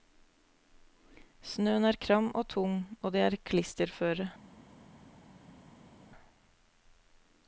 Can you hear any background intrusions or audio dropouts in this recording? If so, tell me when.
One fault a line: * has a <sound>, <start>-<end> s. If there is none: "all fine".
all fine